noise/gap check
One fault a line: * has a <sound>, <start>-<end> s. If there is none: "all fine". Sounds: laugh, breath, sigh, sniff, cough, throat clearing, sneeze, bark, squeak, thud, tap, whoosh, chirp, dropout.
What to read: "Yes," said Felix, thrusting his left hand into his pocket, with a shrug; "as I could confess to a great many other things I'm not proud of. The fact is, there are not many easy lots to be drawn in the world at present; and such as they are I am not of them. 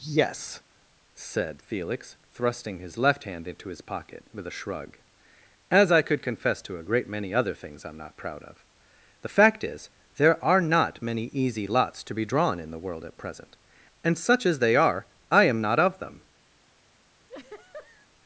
* has a laugh, 17.3-18.1 s